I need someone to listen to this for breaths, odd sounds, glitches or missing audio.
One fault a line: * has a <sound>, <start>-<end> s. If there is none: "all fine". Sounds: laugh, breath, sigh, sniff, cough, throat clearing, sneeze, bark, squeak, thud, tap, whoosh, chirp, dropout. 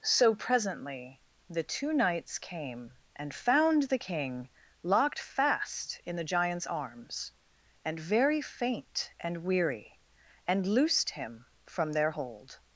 all fine